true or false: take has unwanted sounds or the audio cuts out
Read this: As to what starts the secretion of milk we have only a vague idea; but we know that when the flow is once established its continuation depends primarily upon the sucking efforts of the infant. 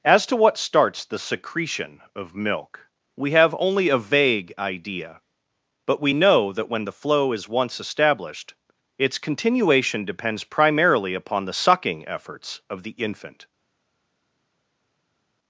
false